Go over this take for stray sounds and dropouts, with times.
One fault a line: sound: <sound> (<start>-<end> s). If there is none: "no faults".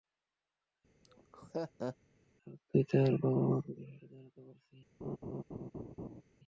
sound: laugh (1.0-2.0 s)
sound: laugh (5.0-6.2 s)